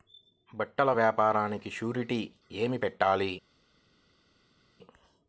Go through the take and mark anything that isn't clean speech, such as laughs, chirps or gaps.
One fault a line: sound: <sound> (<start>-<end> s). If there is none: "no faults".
no faults